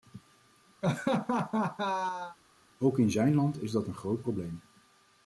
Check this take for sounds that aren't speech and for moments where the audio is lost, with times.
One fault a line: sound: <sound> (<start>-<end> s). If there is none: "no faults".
sound: laugh (0.8-2.4 s)